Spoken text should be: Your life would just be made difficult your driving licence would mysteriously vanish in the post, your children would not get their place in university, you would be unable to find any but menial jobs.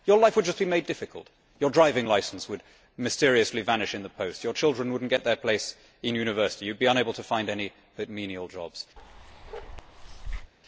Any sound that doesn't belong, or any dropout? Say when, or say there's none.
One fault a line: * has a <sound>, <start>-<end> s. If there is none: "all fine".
* has a bark, 9.0-10.5 s